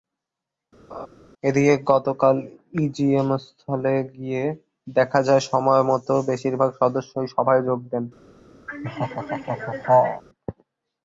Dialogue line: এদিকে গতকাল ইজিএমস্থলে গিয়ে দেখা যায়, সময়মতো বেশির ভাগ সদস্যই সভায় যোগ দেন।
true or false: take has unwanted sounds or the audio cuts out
true